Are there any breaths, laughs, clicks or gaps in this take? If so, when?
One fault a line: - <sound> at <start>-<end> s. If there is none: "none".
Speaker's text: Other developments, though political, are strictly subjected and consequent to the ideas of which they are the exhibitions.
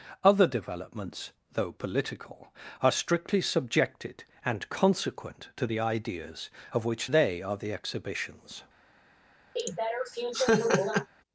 - laugh at 9.6-11.1 s